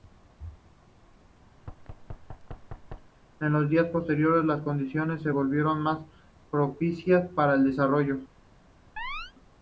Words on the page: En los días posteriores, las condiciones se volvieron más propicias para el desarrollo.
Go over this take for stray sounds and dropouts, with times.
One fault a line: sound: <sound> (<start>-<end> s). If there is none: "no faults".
sound: thud (1.6-3.1 s)
sound: chirp (9.0-9.3 s)